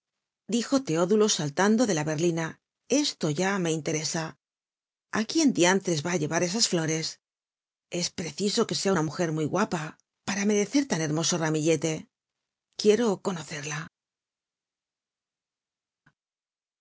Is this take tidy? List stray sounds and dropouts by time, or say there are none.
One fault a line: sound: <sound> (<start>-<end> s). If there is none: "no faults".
no faults